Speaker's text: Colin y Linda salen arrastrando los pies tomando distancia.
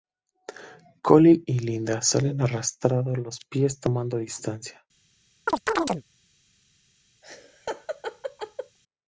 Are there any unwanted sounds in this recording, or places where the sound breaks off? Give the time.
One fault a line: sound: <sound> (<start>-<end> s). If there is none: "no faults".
sound: chirp (5.5-6.0 s)
sound: laugh (7.2-8.8 s)